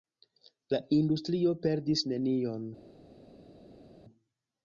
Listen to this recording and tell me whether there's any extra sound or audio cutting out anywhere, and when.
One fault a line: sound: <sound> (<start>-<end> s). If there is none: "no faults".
no faults